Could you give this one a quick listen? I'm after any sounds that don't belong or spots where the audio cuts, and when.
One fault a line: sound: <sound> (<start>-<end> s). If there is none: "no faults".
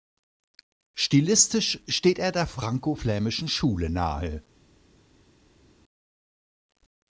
no faults